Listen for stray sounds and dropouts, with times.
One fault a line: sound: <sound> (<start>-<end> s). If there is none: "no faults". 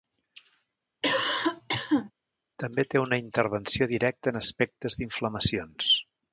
sound: cough (1.0-2.1 s)